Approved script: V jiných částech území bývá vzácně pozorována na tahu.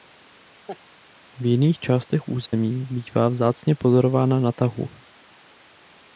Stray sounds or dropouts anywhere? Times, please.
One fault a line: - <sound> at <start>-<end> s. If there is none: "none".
- laugh at 0.7-0.8 s
- dropout at 2.5-2.5 s